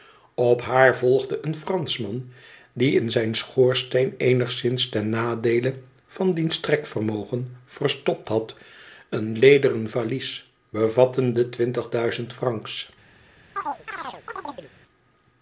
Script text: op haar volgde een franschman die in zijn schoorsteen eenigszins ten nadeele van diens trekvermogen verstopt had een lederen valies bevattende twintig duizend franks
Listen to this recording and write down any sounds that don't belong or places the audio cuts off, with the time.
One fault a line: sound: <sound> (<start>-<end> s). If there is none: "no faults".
sound: chirp (13.6-14.7 s)